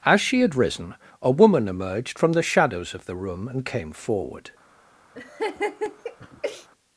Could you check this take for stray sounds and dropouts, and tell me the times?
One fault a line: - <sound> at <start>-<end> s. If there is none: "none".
- laugh at 5.1-6.7 s